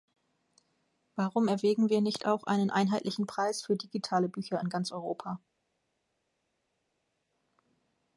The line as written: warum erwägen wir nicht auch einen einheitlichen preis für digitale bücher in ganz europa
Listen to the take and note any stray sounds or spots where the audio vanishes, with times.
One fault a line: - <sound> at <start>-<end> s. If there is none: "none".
none